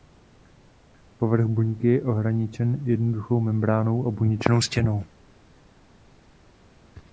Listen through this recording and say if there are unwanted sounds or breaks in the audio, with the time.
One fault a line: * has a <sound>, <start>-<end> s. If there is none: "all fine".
all fine